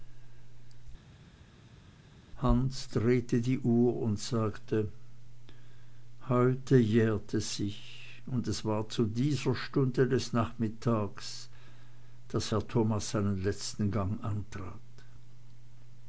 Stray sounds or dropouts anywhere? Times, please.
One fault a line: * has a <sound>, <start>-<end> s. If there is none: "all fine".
all fine